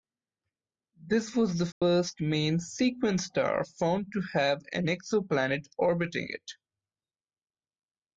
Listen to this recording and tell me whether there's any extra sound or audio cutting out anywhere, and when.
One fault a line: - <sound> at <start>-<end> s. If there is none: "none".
- dropout at 1.7-1.8 s